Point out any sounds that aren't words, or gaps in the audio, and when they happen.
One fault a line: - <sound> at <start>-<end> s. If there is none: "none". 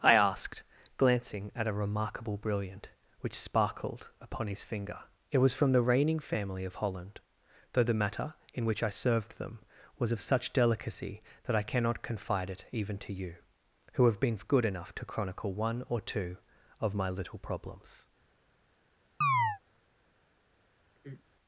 - chirp at 19.2-19.6 s
- sigh at 21.0-21.3 s